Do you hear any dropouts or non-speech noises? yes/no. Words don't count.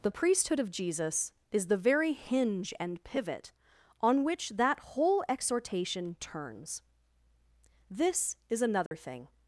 yes